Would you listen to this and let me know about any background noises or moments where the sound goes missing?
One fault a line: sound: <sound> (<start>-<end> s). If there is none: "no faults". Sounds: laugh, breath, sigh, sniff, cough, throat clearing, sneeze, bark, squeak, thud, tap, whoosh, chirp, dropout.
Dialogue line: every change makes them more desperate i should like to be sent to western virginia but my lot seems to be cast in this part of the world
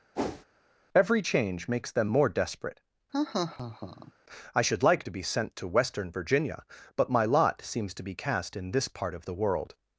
sound: whoosh (0.1-0.4 s)
sound: laugh (3.1-4.1 s)